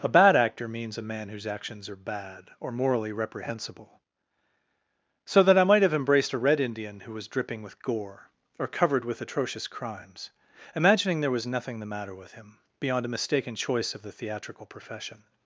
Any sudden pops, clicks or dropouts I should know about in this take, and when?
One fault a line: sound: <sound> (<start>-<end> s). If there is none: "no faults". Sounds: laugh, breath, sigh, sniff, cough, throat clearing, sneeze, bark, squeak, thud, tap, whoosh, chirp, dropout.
no faults